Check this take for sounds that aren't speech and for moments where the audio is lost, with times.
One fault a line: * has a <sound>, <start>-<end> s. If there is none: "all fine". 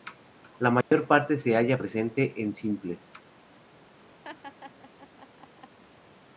* has a dropout, 0.8-0.9 s
* has a laugh, 4.2-5.8 s